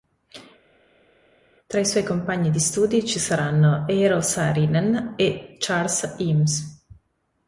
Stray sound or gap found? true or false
false